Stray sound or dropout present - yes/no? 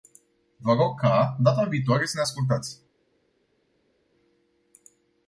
no